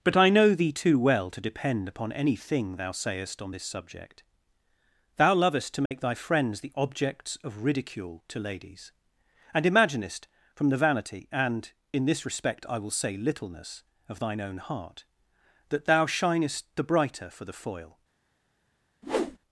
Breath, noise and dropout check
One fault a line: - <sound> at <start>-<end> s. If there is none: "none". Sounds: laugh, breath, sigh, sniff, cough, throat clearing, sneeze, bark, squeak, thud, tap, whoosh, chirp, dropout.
- dropout at 5.9-5.9 s
- whoosh at 19.0-19.4 s